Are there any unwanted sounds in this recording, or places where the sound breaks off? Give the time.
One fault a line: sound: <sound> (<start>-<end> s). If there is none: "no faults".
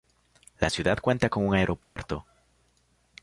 sound: dropout (1.8-2.0 s)